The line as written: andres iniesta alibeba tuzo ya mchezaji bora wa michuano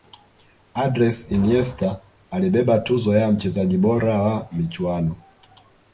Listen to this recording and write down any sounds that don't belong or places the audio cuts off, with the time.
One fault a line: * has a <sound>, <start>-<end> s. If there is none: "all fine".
all fine